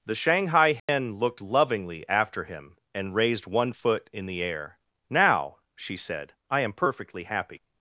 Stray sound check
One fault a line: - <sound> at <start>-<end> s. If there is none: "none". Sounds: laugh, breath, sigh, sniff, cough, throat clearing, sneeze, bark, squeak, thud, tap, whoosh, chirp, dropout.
- dropout at 0.8-0.9 s